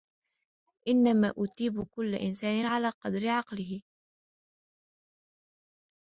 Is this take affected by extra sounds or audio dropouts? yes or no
no